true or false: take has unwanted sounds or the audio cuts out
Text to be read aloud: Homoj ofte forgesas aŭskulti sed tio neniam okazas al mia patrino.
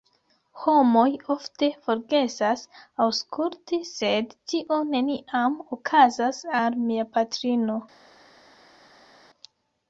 false